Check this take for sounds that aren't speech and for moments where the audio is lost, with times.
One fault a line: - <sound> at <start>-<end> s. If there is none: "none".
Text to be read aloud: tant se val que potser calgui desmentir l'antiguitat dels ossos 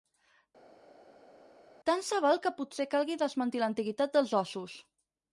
none